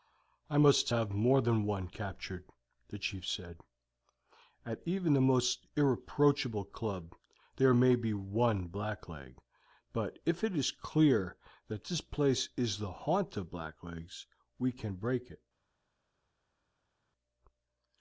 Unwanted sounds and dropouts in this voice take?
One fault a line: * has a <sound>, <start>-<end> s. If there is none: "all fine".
all fine